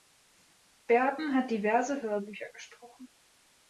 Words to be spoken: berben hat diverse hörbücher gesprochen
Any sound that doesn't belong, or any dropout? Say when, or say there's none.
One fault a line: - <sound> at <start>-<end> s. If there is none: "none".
none